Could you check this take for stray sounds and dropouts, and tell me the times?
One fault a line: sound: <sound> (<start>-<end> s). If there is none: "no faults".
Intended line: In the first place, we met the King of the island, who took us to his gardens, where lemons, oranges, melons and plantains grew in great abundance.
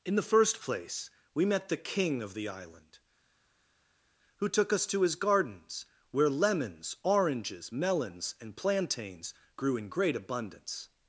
no faults